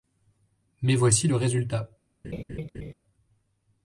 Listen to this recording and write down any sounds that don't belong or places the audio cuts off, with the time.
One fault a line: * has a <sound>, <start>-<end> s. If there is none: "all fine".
* has a laugh, 2.2-2.9 s